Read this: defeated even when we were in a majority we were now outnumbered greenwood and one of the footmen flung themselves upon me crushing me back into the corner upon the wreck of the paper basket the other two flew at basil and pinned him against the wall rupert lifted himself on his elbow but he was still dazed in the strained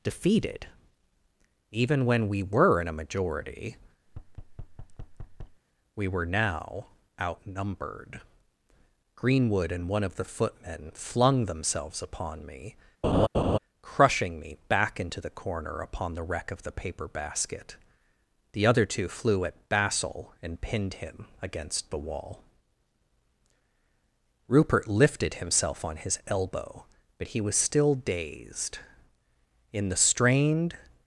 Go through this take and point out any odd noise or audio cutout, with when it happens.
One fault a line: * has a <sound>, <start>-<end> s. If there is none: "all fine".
* has a thud, 4.1-5.6 s
* has a laugh, 13.0-13.6 s